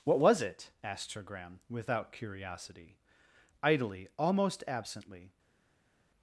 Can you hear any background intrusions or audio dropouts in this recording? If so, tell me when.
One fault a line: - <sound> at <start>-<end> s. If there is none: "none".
none